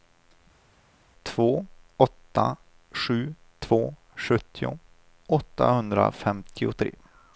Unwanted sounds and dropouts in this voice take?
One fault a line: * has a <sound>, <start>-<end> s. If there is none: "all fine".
all fine